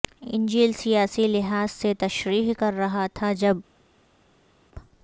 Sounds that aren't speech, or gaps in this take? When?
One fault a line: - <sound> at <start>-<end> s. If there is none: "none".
none